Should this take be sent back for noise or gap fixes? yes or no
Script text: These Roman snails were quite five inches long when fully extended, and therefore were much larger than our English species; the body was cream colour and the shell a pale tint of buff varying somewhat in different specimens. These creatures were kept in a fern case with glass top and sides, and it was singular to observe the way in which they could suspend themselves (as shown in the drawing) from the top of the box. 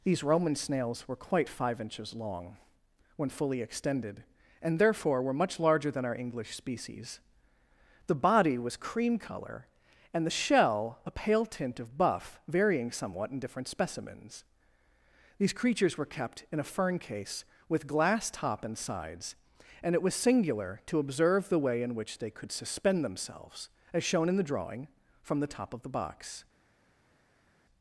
no